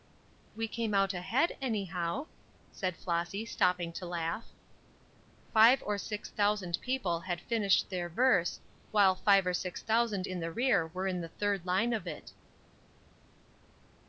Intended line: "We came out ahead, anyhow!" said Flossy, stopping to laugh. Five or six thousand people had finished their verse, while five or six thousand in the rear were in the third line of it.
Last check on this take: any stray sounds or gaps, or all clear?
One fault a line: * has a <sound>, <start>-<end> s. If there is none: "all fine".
all fine